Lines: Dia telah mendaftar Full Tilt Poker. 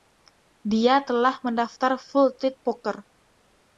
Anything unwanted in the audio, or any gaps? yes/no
no